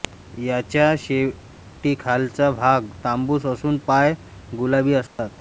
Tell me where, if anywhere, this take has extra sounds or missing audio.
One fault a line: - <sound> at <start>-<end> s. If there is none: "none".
- dropout at 5.1-5.2 s